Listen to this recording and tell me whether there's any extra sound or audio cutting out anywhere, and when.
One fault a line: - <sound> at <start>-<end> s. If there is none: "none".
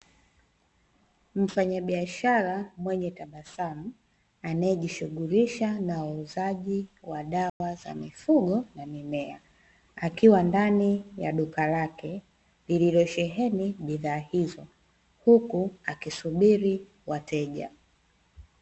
- dropout at 7.5-7.6 s